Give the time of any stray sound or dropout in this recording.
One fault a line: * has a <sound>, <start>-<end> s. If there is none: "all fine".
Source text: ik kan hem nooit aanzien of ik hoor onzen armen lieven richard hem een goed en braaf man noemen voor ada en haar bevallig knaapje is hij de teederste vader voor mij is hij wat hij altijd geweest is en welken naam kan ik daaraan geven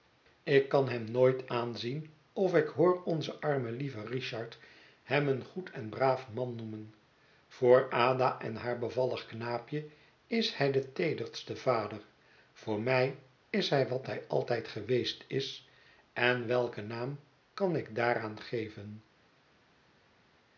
all fine